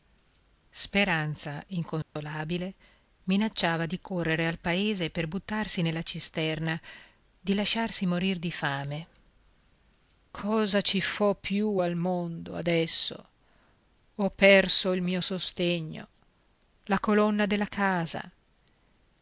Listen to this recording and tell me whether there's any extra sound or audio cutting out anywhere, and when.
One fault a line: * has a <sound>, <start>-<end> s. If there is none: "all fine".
* has a dropout, 2.0-2.2 s